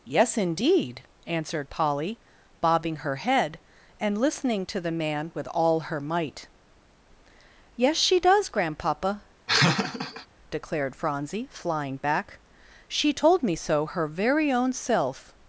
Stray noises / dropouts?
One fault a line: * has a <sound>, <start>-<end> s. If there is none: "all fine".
* has a laugh, 9.5-10.3 s